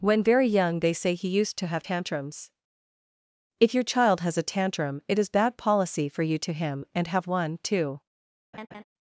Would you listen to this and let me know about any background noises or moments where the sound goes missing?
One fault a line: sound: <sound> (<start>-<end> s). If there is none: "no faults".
sound: laugh (8.5-8.8 s)